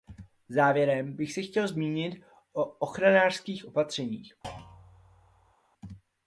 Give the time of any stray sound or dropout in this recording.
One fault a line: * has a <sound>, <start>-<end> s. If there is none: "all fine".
* has a thud, 4.4-5.5 s